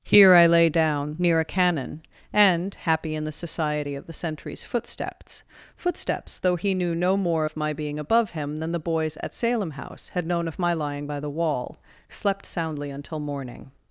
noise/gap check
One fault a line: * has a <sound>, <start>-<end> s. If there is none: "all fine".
all fine